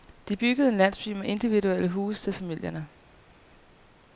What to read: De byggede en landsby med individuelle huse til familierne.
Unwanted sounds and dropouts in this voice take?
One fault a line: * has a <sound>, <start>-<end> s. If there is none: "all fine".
all fine